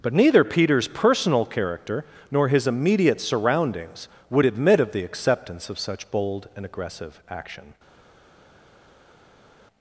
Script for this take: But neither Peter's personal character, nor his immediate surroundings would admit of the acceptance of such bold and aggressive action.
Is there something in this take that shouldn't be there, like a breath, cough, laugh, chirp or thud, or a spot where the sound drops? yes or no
no